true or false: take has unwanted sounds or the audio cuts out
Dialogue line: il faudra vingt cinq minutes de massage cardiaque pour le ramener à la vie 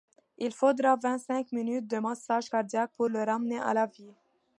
false